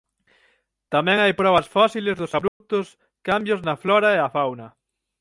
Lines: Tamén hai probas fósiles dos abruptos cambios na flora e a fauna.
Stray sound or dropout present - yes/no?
yes